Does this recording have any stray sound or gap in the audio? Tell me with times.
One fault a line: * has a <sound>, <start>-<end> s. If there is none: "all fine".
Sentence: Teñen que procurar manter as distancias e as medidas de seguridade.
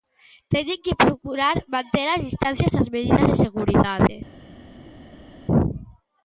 all fine